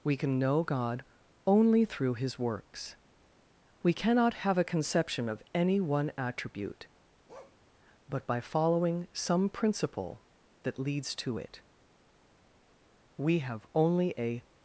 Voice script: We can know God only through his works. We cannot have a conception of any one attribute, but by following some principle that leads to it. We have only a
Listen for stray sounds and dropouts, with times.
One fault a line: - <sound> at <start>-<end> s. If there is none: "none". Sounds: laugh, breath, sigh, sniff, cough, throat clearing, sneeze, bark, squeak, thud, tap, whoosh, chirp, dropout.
- bark at 7.3-7.6 s